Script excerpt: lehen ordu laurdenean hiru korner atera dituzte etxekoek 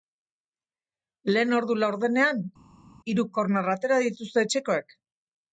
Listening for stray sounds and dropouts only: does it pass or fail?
pass